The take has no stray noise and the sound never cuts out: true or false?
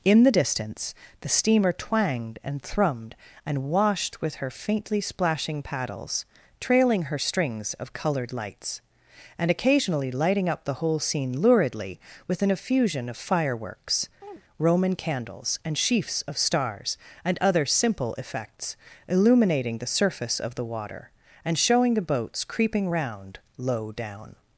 false